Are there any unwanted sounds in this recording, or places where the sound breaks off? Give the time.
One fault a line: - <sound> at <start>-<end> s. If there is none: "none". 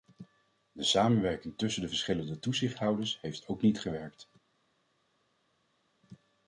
none